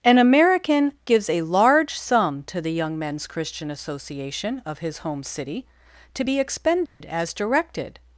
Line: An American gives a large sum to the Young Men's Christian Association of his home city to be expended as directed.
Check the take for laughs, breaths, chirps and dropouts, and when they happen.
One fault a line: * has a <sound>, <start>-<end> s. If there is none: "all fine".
* has a dropout, 6.9-7.0 s